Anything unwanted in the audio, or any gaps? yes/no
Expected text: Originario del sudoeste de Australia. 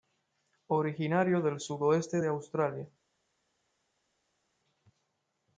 no